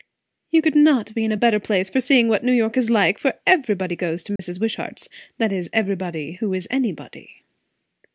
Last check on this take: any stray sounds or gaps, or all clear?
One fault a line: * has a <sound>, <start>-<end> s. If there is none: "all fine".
* has a dropout, 4.4-4.4 s